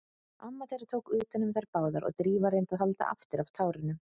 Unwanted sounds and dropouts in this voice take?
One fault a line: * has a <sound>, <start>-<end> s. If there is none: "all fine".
all fine